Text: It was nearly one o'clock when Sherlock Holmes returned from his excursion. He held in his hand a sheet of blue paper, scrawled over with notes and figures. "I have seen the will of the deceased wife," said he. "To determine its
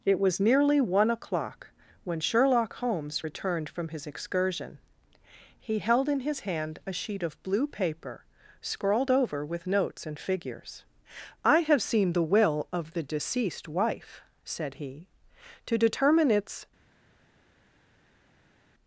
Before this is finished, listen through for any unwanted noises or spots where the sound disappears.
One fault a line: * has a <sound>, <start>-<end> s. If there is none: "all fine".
all fine